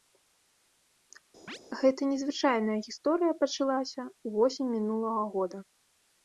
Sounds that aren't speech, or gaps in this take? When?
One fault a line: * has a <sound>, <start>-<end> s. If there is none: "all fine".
* has a chirp, 1.5-1.6 s